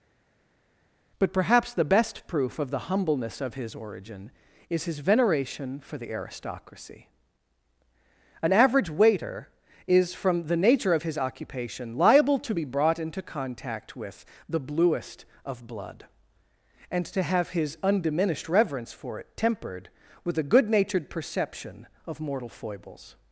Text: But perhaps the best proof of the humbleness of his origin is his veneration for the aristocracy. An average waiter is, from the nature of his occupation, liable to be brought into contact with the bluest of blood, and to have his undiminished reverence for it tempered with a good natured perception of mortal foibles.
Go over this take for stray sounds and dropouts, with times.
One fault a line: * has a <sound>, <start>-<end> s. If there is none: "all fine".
all fine